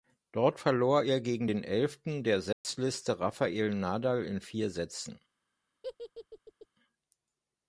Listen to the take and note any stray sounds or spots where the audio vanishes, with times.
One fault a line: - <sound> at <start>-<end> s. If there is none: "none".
- dropout at 2.5-2.6 s
- laugh at 5.8-6.7 s